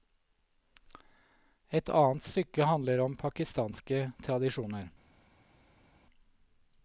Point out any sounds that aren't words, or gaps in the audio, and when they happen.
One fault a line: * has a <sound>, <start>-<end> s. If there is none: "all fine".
all fine